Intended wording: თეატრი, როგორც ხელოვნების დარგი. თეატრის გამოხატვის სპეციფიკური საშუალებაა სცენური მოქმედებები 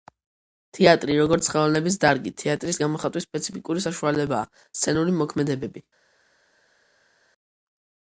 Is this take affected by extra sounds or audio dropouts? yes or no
no